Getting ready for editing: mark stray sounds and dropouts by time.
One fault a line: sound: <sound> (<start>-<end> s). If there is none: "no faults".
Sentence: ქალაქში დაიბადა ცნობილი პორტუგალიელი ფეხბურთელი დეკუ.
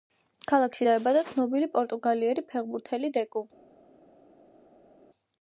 no faults